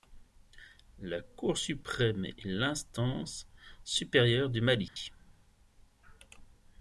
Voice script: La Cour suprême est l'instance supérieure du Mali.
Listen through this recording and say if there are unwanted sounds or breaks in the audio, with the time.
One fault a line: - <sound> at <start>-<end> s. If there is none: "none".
- dropout at 4.9-5.0 s